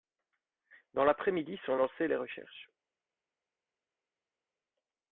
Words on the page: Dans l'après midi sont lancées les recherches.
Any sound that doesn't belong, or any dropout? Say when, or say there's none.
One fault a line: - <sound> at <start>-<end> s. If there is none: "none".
none